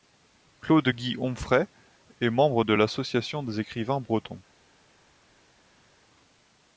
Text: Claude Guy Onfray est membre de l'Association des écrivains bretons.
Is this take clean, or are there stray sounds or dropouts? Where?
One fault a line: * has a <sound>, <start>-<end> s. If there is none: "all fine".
all fine